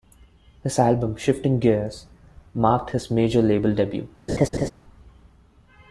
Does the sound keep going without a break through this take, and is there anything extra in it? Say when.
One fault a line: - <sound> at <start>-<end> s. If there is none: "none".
- laugh at 4.3-4.7 s